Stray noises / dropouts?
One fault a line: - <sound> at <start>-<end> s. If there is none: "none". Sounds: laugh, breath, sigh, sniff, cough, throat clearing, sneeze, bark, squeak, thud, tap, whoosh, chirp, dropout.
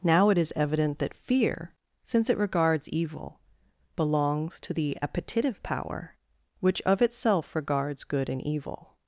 none